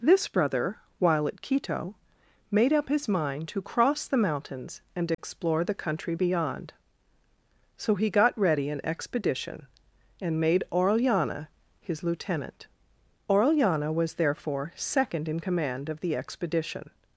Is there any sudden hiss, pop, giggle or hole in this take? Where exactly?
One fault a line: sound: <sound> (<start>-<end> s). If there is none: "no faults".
sound: dropout (5.1-5.2 s)